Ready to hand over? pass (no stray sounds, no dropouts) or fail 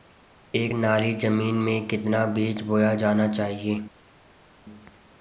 pass